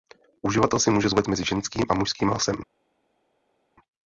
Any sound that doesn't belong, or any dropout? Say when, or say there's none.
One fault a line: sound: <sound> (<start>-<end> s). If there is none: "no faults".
no faults